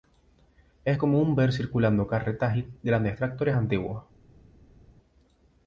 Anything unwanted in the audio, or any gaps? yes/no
no